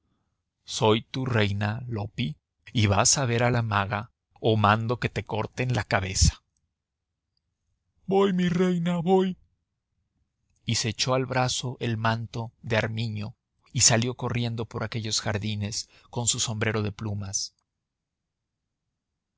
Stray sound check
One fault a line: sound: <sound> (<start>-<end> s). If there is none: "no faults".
no faults